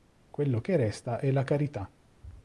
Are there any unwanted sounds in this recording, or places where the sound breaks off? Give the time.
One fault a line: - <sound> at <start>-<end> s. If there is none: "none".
none